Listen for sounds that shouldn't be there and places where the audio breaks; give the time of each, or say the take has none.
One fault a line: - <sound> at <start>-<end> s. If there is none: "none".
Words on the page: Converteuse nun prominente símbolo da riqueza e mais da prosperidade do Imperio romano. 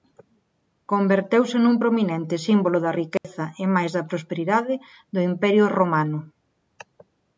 - dropout at 3.2-3.2 s